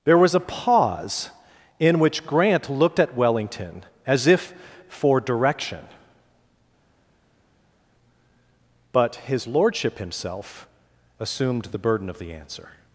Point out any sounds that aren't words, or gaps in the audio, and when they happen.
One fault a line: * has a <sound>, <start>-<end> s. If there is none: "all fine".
all fine